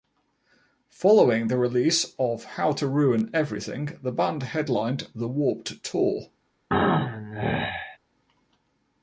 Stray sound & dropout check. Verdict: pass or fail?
fail